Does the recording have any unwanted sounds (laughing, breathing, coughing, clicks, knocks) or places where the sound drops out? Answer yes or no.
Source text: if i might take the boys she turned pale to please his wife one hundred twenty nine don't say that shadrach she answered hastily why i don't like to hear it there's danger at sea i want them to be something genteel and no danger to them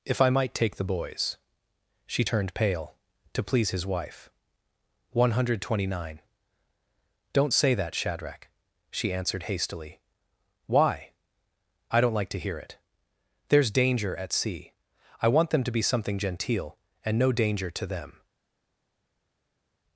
no